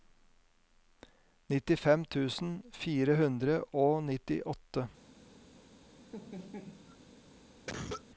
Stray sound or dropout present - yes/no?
yes